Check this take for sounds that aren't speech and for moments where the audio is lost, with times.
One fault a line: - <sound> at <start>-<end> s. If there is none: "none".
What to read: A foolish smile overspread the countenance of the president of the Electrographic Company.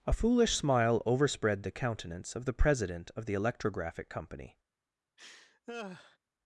- laugh at 5.2-6.2 s